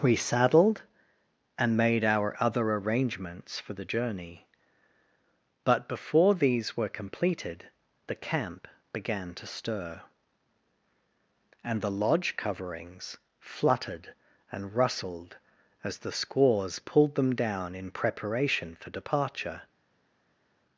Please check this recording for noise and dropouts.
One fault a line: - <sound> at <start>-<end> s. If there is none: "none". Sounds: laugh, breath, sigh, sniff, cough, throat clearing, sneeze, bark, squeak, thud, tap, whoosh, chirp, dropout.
none